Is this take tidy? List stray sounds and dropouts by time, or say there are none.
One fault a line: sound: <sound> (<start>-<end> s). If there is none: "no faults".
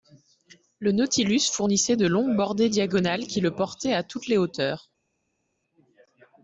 no faults